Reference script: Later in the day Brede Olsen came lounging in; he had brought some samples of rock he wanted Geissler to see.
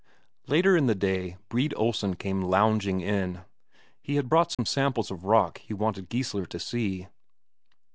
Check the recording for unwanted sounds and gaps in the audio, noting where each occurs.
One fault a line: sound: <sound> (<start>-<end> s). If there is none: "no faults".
sound: dropout (4.5-4.6 s)